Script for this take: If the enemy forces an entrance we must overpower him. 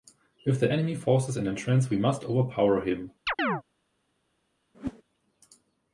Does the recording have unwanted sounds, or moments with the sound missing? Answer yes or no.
yes